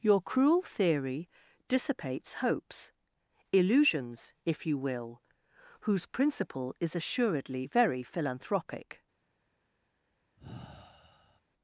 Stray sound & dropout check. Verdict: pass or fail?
fail